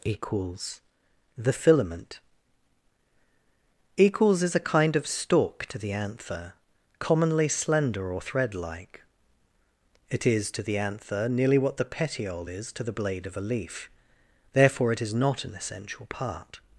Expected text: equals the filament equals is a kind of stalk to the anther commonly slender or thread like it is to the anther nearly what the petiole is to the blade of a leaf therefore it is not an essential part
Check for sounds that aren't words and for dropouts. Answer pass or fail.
pass